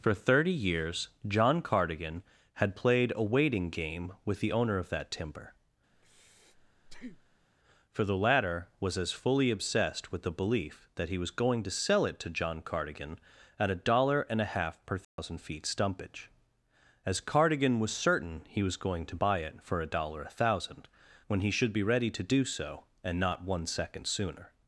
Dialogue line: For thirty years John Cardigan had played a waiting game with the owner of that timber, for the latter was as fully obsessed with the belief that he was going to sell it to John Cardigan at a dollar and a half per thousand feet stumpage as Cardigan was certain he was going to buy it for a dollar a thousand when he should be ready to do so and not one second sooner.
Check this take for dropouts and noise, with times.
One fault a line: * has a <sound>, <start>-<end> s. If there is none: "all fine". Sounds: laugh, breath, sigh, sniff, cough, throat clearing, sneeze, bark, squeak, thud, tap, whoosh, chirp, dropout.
* has a breath, 5.9-7.5 s
* has a dropout, 15.0-15.2 s